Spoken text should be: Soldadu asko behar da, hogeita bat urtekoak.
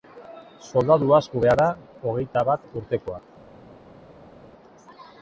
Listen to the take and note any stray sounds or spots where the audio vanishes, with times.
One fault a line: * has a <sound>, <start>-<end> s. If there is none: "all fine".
all fine